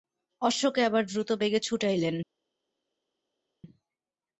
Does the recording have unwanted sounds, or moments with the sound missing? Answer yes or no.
no